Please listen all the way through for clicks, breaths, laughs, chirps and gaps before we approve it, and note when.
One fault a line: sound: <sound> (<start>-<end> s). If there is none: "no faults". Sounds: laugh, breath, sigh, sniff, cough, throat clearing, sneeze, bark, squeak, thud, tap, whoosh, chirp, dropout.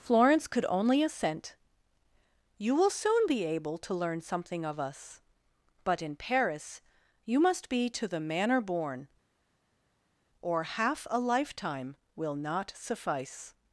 no faults